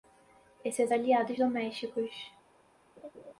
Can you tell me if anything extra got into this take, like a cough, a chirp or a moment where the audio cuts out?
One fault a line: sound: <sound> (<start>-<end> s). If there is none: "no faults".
sound: laugh (3.0-3.3 s)